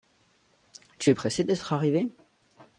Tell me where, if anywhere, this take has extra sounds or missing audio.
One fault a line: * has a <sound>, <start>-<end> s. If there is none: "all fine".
all fine